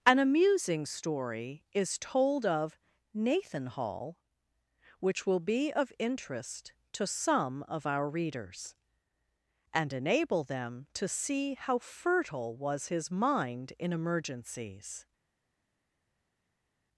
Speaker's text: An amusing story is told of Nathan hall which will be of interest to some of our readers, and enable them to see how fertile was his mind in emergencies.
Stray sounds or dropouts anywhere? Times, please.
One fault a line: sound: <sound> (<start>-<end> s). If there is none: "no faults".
no faults